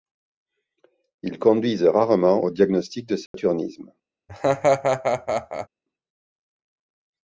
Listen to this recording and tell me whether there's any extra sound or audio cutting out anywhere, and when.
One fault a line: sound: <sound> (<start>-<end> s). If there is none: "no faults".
sound: dropout (3.3-3.3 s)
sound: laugh (4.3-5.7 s)